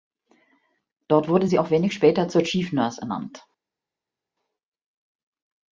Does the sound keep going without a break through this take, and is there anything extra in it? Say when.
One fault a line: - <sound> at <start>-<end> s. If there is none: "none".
none